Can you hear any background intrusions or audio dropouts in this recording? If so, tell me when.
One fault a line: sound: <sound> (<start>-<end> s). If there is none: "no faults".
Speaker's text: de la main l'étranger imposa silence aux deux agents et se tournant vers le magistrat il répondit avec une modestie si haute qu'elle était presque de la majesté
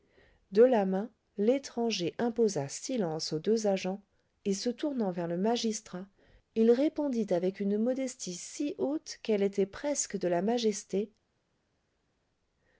no faults